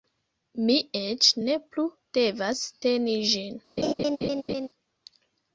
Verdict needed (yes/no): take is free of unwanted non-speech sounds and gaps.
no